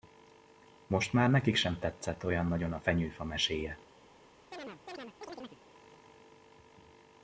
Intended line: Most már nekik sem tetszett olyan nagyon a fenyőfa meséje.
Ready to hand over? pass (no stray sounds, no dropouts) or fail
fail